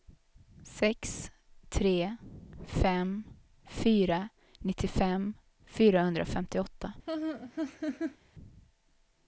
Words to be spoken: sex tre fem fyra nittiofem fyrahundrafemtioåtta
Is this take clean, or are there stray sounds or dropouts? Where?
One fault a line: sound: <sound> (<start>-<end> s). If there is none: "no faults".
sound: laugh (7.1-8.2 s)